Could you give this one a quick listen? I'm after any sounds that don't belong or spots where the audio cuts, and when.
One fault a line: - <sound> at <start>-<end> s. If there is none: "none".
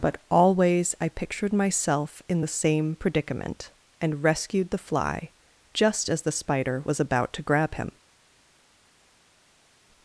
none